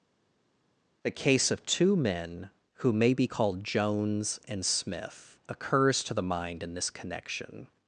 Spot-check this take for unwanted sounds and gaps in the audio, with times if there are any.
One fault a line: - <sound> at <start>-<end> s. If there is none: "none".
none